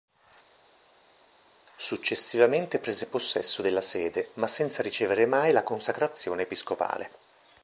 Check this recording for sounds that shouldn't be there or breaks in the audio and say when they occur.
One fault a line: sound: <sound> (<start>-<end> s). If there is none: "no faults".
no faults